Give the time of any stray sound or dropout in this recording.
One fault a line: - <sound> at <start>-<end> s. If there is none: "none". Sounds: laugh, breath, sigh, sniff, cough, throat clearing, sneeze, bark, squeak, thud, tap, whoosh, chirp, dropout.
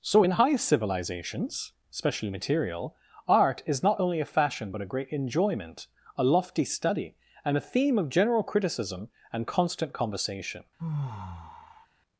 - sigh at 10.8-11.9 s